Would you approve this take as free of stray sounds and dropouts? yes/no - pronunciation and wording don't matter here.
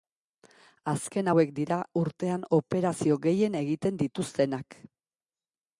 yes